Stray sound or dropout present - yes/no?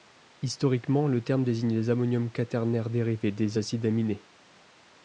no